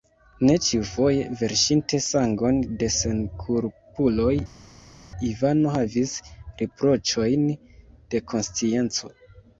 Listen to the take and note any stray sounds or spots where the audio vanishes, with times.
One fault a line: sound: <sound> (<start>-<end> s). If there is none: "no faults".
no faults